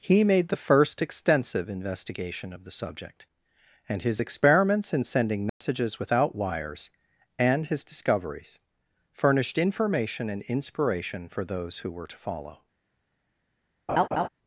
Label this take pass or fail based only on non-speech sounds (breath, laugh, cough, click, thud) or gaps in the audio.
fail